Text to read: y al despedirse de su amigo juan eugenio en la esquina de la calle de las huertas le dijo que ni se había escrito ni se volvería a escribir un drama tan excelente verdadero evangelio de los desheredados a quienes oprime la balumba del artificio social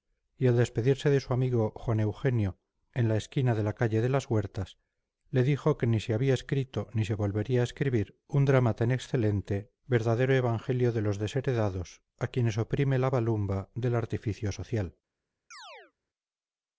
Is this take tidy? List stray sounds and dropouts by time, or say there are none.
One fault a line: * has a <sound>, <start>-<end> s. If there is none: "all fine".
* has a chirp, 15.5-15.9 s